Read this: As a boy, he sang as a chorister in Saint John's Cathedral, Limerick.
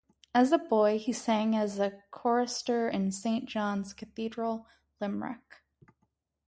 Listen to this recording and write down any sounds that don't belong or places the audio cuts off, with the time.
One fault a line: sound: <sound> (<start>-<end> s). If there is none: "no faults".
no faults